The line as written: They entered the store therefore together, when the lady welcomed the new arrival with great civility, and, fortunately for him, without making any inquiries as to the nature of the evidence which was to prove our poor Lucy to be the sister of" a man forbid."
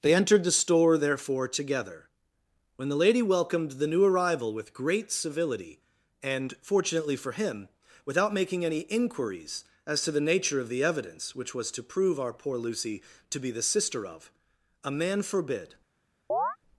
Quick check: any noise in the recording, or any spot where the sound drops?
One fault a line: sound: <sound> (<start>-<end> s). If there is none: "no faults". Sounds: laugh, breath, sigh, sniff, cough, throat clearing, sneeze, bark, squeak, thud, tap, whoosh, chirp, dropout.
sound: chirp (16.3-16.6 s)